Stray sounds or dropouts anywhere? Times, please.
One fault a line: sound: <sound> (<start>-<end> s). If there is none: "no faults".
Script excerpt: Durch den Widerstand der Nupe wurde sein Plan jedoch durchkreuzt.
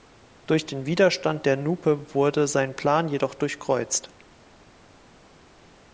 no faults